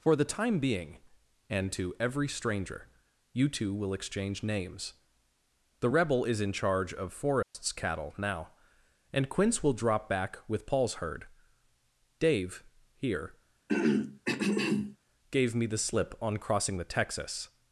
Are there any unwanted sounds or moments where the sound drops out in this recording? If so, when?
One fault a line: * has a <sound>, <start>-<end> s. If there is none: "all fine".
* has a dropout, 7.4-7.5 s
* has a throat clearing, 13.7-15.0 s